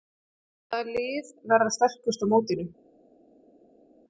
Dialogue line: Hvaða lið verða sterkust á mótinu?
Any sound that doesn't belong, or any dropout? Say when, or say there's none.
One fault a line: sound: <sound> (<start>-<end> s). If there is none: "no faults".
no faults